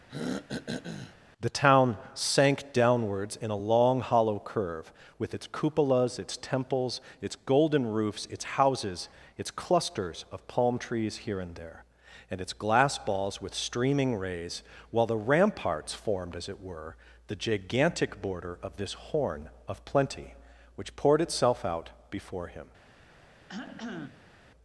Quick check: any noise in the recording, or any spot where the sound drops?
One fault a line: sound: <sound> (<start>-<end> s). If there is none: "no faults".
sound: throat clearing (0.1-1.2 s)
sound: cough (23.5-24.3 s)